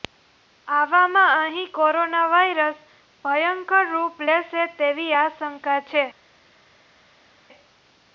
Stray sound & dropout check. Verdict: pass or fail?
pass